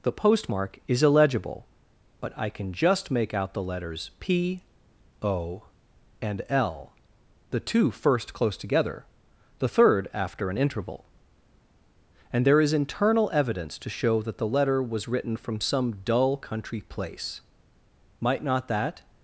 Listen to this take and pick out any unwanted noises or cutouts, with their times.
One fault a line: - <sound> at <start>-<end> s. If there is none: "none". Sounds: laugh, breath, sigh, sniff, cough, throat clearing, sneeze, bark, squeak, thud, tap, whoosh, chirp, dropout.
none